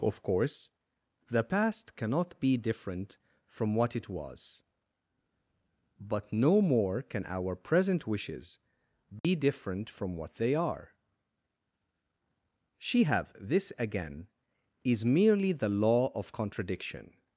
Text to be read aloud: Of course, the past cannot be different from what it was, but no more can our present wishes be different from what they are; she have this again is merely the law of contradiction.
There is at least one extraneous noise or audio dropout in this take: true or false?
true